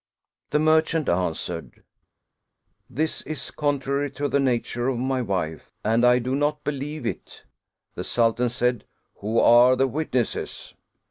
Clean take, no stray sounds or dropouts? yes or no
yes